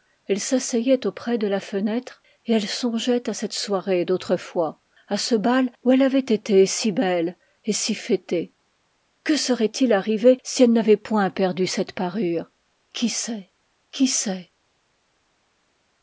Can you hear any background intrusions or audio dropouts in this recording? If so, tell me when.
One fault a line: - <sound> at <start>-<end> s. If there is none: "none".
none